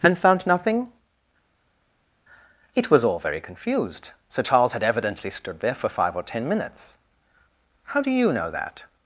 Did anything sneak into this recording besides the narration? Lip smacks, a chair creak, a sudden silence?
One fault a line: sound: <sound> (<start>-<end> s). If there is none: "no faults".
no faults